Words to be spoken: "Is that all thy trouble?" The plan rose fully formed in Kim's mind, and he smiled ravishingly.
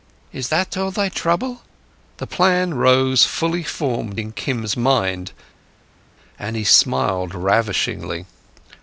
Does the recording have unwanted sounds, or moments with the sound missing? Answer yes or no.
no